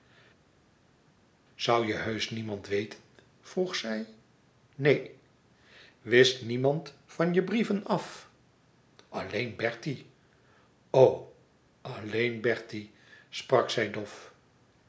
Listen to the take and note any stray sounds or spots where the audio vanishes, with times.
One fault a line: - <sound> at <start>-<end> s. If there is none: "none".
none